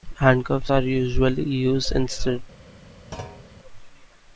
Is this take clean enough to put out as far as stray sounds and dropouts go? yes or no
no